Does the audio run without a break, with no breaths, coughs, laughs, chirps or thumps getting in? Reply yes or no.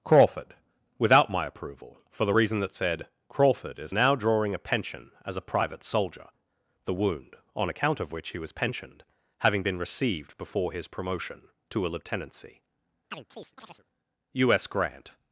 no